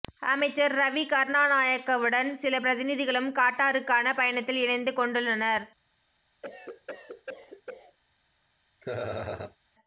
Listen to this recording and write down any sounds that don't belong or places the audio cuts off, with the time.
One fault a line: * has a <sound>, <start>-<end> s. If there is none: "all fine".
* has a cough, 6.4-8.0 s
* has a laugh, 8.8-9.6 s